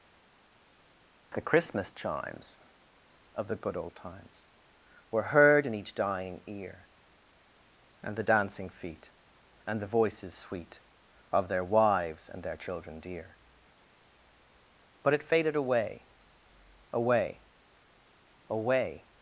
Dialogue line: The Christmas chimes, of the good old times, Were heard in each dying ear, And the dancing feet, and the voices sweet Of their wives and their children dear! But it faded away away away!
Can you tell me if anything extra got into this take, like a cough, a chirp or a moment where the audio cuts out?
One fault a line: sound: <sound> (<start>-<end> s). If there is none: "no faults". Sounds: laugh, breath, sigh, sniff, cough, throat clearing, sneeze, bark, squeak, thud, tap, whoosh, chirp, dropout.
no faults